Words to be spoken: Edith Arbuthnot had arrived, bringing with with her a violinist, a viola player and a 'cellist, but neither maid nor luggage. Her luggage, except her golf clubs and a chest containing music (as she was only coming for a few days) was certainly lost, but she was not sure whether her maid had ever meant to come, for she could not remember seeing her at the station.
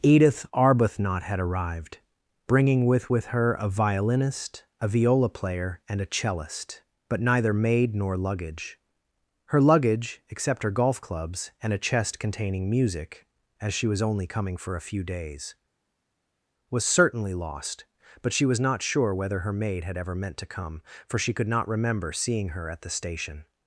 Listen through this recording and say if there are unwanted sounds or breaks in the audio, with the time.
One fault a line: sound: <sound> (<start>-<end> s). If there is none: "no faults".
no faults